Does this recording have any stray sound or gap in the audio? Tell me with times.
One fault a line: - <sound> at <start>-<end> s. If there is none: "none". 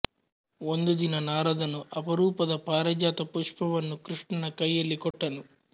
- dropout at 5.1-5.1 s